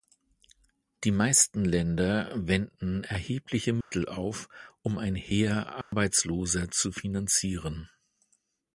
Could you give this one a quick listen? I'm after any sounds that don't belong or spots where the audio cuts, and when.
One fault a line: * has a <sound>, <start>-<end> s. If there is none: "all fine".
* has a dropout, 3.8-3.9 s
* has a dropout, 5.8-5.9 s